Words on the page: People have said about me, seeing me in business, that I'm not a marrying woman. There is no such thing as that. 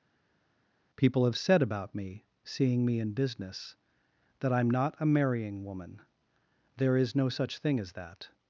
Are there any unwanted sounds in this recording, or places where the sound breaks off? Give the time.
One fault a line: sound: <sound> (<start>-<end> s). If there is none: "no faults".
no faults